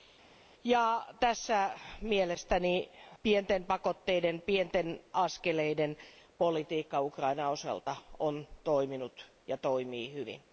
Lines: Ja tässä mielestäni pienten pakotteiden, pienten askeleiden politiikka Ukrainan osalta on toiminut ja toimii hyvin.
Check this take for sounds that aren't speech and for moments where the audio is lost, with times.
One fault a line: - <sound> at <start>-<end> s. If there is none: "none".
none